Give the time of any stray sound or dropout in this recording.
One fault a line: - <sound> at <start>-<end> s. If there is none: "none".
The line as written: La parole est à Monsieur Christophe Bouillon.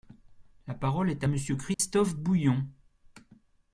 - dropout at 1.7-1.8 s